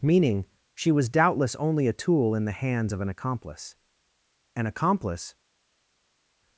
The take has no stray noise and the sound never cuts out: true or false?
true